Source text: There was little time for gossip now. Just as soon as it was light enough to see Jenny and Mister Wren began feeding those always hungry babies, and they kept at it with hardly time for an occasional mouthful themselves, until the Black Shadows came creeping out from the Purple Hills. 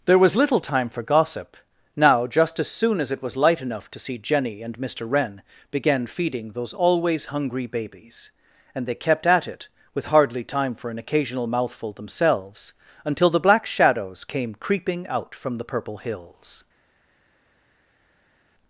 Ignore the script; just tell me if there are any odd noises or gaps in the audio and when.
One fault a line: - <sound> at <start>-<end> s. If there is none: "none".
none